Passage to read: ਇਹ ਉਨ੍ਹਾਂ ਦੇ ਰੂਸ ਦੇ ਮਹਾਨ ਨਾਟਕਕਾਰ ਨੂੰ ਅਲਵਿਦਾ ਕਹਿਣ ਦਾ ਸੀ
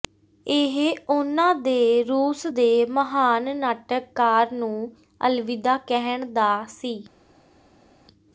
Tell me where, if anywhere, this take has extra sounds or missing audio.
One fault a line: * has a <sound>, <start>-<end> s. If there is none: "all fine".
all fine